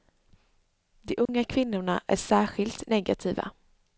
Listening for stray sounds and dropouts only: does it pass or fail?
fail